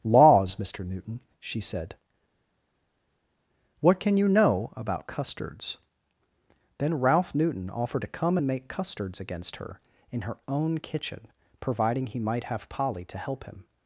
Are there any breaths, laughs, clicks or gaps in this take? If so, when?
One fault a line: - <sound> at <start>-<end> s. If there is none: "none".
none